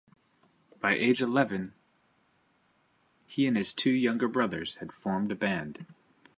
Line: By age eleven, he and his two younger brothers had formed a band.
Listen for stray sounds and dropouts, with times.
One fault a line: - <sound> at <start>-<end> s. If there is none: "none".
none